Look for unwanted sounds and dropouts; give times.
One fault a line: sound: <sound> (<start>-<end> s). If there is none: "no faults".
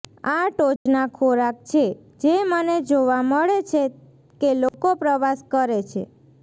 sound: dropout (0.8-0.9 s)
sound: dropout (4.7-4.7 s)